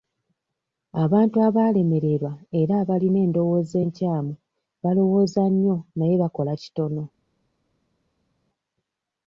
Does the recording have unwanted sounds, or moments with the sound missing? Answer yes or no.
no